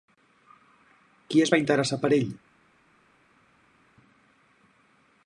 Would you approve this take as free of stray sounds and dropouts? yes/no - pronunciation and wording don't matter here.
yes